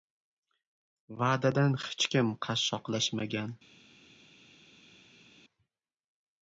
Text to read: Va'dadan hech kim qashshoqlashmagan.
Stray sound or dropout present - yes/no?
no